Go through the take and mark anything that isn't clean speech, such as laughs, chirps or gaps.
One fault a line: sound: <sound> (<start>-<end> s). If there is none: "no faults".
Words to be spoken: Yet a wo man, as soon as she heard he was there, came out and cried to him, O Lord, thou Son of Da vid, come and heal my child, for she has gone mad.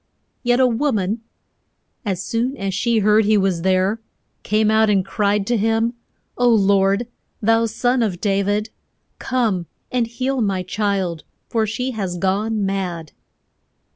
no faults